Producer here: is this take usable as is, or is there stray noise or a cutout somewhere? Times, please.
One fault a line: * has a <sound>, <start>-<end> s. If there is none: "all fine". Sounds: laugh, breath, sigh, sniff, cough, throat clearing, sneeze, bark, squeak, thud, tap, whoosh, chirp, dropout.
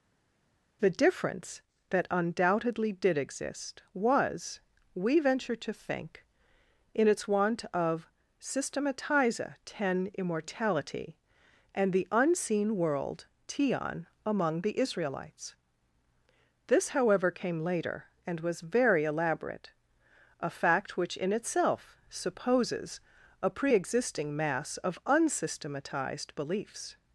all fine